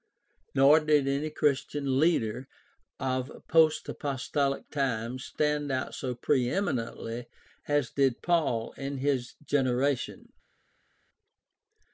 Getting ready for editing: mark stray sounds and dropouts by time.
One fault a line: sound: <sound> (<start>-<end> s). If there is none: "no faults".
no faults